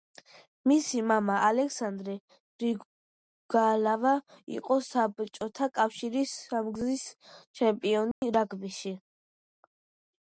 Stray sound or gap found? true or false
true